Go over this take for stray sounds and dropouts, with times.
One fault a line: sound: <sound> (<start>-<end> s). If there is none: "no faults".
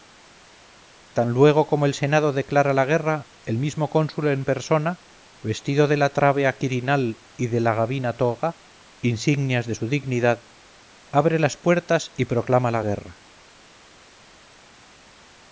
no faults